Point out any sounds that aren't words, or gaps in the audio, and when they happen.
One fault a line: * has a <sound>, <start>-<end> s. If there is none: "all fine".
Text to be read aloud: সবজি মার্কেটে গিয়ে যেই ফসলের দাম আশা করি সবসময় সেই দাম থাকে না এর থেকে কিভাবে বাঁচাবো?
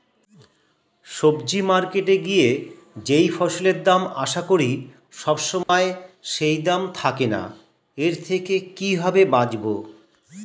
* has a dropout, 5.6-5.7 s